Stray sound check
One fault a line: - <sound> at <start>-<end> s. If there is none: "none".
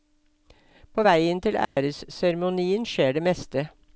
- dropout at 1.6-1.8 s